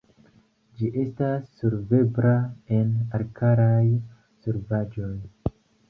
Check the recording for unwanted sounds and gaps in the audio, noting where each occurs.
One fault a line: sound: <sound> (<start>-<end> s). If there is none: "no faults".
no faults